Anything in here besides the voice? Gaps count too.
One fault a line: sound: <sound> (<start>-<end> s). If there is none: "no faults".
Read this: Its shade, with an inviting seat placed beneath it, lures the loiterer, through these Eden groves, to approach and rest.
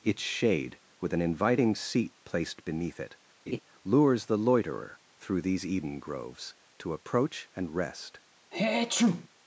sound: laugh (3.5-3.6 s)
sound: sneeze (8.5-9.3 s)